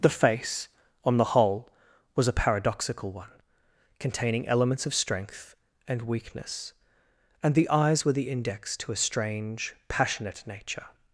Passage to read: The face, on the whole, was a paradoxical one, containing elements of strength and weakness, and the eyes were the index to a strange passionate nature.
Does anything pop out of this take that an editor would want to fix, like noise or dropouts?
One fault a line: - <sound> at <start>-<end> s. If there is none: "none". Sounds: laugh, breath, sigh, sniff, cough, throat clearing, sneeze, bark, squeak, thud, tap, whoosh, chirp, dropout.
none